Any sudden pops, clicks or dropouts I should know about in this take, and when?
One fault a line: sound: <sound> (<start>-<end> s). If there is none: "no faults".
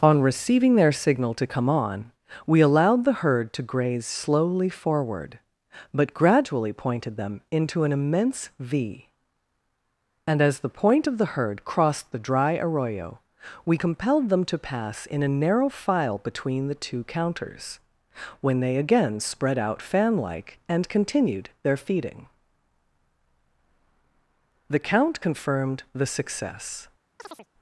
sound: chirp (27.2-27.5 s)